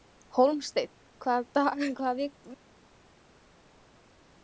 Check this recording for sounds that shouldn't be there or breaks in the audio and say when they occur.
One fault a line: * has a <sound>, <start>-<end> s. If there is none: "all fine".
all fine